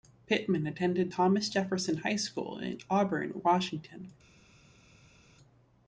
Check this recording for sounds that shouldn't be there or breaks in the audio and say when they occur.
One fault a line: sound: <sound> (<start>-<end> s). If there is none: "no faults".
no faults